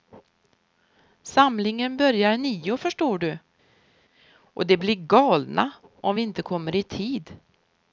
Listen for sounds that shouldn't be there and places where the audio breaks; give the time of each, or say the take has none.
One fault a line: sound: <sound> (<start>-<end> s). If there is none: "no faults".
no faults